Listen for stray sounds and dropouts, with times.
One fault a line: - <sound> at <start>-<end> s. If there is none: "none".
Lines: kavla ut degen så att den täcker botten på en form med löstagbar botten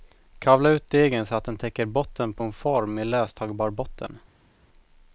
none